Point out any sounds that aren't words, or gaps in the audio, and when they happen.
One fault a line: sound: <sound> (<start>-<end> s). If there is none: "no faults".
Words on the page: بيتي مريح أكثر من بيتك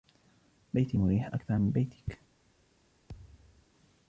sound: thud (3.1-3.7 s)